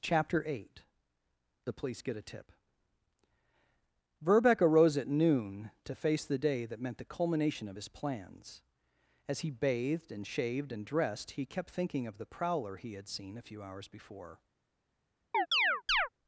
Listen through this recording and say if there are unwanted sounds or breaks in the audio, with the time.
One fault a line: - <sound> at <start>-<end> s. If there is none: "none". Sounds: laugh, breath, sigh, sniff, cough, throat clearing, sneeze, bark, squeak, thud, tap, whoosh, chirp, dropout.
- chirp at 15.3-16.1 s